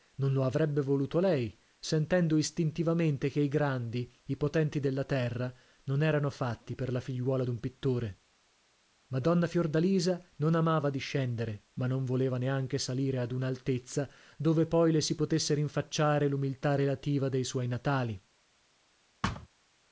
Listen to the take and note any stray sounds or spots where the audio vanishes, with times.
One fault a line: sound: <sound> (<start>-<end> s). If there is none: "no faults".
sound: thud (19.2-19.5 s)